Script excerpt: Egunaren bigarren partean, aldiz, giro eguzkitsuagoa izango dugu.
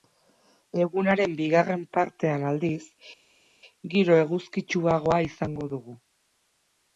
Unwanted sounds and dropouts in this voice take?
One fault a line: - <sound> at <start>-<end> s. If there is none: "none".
none